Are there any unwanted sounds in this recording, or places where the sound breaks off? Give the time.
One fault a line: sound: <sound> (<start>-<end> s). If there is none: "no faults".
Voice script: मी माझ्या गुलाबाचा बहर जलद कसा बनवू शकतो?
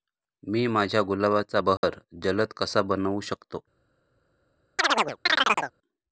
sound: dropout (1.8-1.8 s)
sound: chirp (4.8-5.7 s)